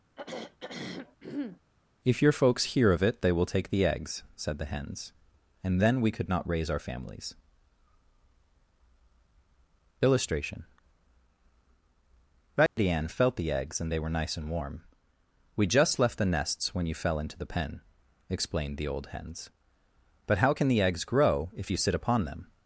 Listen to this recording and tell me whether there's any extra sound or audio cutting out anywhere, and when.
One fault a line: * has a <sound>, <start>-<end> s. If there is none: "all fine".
* has a throat clearing, 0.2-1.6 s
* has a dropout, 12.7-12.8 s